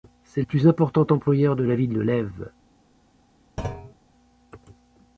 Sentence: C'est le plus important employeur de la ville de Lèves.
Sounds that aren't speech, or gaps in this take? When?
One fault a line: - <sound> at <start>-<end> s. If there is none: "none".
- thud at 3.6-3.9 s